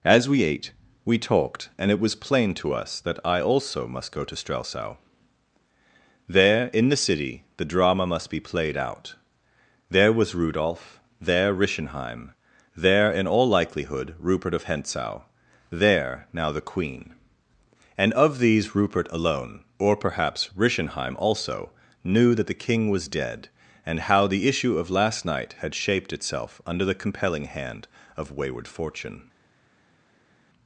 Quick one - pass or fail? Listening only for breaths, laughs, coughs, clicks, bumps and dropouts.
pass